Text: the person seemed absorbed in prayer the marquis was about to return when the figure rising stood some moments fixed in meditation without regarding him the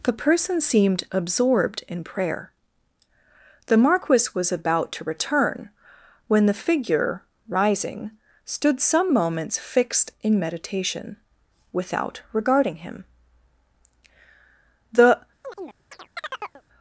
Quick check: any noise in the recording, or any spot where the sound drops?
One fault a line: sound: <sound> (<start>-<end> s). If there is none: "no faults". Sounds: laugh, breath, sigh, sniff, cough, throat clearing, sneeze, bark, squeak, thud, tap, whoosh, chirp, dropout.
sound: chirp (15.4-16.6 s)